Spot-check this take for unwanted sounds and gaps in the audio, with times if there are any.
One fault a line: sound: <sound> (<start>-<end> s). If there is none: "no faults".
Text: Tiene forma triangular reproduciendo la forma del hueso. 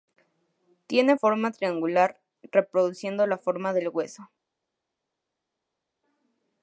no faults